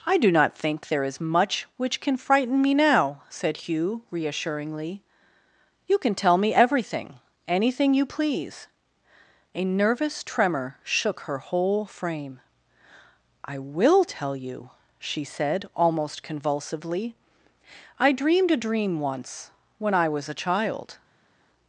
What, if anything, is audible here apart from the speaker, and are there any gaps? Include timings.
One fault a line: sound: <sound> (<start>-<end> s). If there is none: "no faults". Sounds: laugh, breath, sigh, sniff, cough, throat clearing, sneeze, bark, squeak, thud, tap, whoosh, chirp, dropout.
no faults